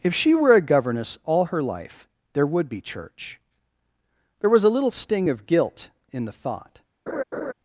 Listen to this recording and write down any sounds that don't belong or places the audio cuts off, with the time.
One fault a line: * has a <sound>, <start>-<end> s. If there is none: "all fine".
* has a laugh, 7.1-7.5 s